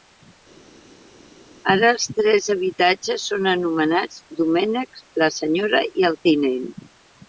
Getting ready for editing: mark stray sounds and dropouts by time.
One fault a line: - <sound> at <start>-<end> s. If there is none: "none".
none